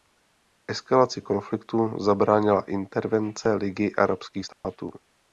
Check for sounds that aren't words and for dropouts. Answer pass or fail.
fail